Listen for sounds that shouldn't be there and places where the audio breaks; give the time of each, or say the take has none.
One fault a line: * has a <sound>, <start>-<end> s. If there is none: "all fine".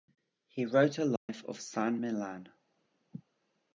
* has a dropout, 1.2-1.3 s